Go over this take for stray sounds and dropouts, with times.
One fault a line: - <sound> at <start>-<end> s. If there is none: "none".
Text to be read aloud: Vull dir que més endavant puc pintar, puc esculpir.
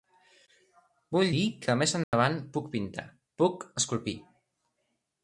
- dropout at 2.0-2.1 s